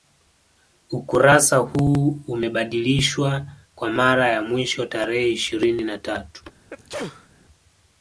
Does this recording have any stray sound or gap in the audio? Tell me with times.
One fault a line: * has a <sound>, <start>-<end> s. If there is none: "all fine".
* has a sneeze, 6.7-7.3 s